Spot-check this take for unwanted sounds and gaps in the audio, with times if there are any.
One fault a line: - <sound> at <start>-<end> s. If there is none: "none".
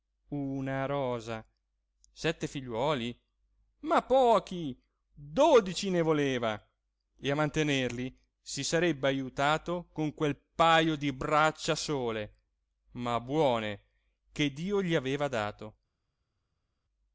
none